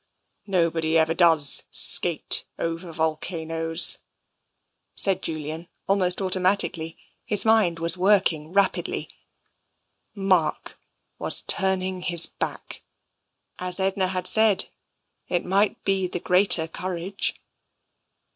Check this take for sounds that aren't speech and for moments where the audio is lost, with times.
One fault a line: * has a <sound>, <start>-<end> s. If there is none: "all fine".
all fine